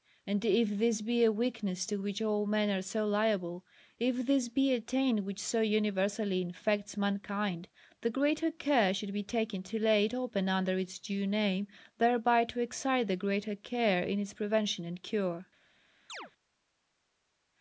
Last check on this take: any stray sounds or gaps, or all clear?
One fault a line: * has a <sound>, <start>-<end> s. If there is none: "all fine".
* has a chirp, 16.1-16.3 s